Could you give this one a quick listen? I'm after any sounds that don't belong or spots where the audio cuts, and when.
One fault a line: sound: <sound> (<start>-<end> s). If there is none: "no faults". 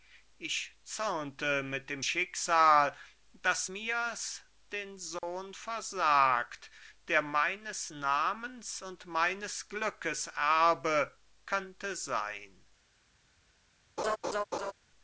sound: dropout (5.2-5.2 s)
sound: laugh (14.0-14.7 s)